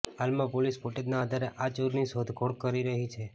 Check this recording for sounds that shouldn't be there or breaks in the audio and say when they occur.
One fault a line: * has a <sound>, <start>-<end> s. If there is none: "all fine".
all fine